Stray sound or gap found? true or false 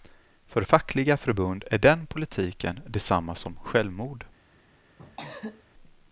true